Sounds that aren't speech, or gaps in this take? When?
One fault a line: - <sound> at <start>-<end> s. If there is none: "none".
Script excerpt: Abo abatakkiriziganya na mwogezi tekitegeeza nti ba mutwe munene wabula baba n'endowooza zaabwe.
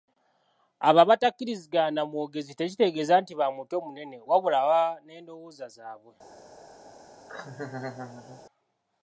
- laugh at 7.3-8.5 s